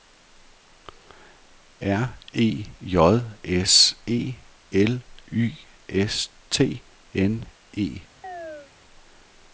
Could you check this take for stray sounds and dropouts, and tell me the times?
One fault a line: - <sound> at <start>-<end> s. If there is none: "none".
- chirp at 8.2-8.7 s